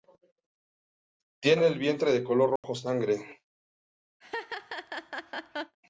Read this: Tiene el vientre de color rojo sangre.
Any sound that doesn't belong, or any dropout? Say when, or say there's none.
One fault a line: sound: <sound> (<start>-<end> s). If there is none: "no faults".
sound: dropout (2.6-2.6 s)
sound: laugh (4.2-5.8 s)